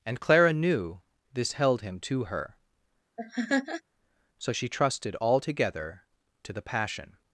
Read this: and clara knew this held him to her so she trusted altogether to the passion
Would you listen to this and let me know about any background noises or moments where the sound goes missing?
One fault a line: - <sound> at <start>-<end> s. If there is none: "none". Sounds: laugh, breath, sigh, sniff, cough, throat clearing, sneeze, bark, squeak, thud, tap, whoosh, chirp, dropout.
- laugh at 3.2-3.8 s